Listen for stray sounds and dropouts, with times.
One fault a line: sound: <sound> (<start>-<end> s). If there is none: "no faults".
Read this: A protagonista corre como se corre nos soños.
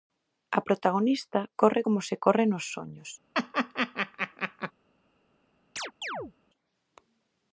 sound: laugh (3.3-4.7 s)
sound: chirp (5.8-6.3 s)